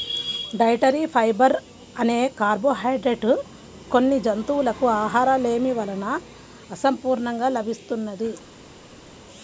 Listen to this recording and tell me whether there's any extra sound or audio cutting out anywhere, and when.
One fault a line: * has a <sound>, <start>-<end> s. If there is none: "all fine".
all fine